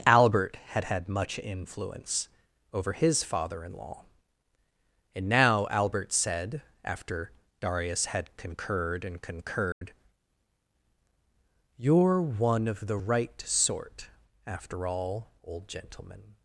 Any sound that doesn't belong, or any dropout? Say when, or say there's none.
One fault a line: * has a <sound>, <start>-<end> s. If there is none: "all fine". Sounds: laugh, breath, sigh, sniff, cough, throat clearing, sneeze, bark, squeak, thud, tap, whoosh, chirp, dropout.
* has a dropout, 9.7-9.8 s